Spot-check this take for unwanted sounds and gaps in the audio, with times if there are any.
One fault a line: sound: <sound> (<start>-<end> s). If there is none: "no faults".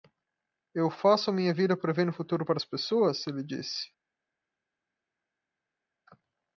no faults